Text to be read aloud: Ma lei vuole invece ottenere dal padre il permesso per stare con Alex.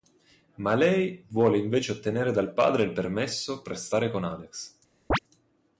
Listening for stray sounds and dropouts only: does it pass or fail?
fail